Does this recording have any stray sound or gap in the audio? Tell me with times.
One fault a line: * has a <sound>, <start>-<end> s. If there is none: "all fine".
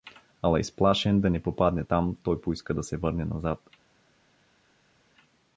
all fine